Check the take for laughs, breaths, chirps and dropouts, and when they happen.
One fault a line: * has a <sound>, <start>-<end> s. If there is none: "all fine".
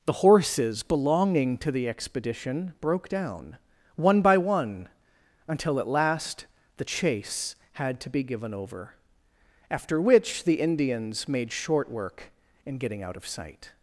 all fine